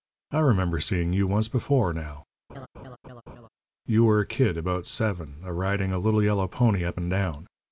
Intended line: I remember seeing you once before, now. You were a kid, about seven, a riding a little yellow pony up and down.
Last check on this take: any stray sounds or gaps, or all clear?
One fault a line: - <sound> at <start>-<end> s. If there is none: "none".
- laugh at 2.5-3.5 s